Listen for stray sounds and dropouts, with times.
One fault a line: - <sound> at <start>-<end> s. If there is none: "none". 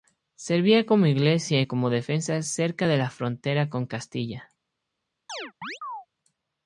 - chirp at 5.3-6.1 s